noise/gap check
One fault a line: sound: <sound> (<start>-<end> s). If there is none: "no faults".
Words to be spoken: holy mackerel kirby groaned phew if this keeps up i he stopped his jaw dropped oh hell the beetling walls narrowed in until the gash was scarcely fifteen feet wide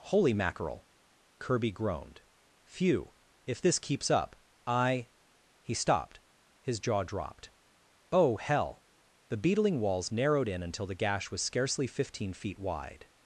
no faults